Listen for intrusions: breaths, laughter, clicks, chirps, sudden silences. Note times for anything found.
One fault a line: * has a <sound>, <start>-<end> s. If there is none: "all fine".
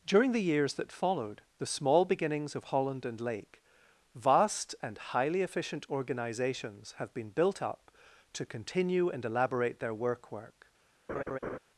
* has a laugh, 11.1-11.6 s